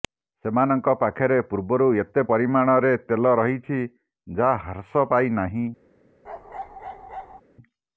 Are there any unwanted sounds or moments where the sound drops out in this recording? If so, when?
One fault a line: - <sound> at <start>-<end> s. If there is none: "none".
- bark at 6.2-7.4 s